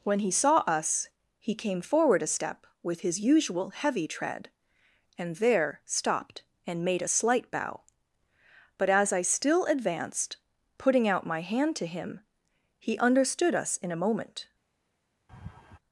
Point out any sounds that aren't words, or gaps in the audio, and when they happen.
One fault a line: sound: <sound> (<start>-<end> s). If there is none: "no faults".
sound: laugh (15.3-15.8 s)